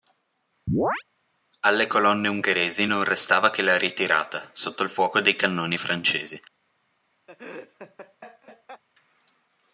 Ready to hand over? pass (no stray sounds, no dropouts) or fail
fail